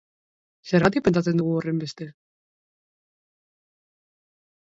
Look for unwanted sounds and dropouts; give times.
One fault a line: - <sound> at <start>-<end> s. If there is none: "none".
none